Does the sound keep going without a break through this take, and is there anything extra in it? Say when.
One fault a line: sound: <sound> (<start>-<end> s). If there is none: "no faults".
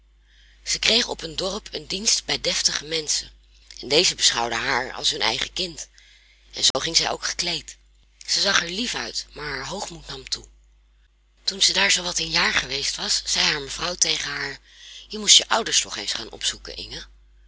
sound: dropout (6.7-6.7 s)